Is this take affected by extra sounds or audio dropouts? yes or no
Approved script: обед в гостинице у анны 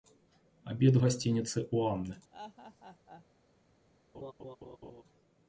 yes